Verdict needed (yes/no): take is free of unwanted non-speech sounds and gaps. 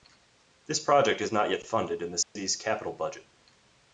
no